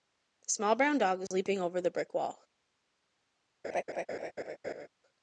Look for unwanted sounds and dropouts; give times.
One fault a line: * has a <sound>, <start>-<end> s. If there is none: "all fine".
* has a dropout, 1.3-1.3 s
* has a laugh, 3.6-4.9 s